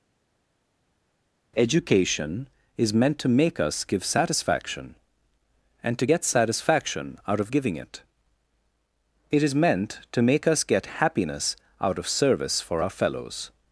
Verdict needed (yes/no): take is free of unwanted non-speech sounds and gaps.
yes